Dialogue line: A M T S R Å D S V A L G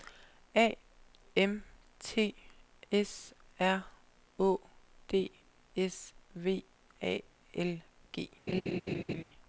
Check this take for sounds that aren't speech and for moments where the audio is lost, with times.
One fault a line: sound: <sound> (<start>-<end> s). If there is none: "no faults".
sound: laugh (8.5-9.2 s)